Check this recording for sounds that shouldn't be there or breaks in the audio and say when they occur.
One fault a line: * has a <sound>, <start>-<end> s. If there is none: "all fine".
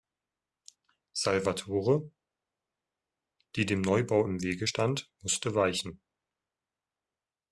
all fine